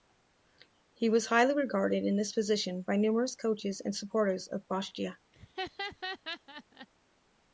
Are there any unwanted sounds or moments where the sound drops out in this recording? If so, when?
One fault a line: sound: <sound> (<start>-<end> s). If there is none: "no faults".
sound: laugh (5.3-6.9 s)